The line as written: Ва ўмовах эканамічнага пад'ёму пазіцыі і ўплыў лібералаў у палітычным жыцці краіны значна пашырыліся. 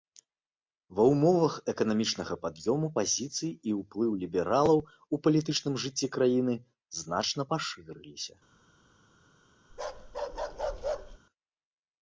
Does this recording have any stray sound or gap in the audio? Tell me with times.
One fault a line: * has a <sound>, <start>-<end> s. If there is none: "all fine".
* has a bark, 9.7-11.2 s